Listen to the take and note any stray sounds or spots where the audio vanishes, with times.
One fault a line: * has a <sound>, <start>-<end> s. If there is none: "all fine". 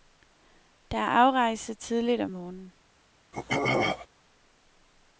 * has a throat clearing, 3.3-4.1 s